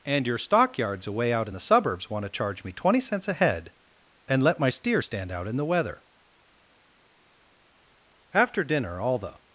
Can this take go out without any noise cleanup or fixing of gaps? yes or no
yes